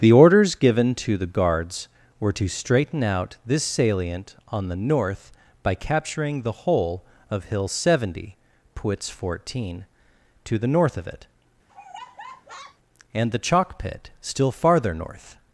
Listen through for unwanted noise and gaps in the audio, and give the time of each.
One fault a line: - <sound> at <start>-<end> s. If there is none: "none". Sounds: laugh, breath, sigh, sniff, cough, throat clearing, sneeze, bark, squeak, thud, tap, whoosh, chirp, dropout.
- laugh at 11.7-12.8 s